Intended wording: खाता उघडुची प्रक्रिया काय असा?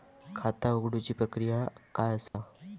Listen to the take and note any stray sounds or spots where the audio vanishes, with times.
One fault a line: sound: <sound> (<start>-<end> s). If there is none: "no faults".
sound: dropout (2.3-2.3 s)